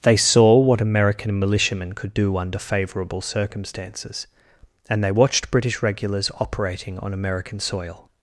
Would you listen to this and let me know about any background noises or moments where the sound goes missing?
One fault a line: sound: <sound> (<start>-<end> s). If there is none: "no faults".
no faults